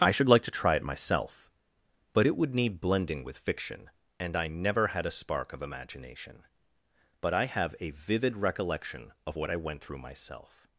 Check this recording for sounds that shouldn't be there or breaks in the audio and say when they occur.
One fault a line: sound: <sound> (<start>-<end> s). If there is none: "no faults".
no faults